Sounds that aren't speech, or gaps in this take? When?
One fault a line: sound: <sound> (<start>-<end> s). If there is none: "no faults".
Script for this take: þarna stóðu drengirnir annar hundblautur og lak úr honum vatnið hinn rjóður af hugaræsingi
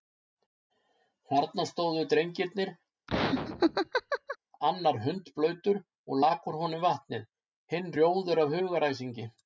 sound: laugh (3.1-4.4 s)